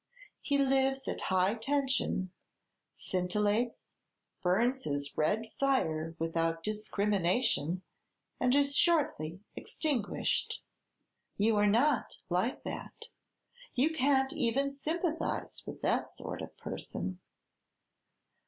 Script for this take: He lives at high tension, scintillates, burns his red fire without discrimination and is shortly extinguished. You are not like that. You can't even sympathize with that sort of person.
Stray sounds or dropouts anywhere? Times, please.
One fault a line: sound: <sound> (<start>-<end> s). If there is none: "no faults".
no faults